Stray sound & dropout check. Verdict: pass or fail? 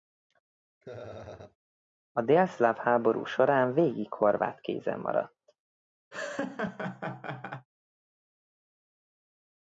fail